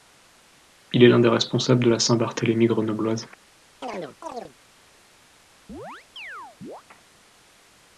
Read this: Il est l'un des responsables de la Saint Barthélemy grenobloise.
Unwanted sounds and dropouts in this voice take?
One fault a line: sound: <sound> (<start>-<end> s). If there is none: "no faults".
sound: chirp (3.8-4.6 s)
sound: chirp (5.7-6.8 s)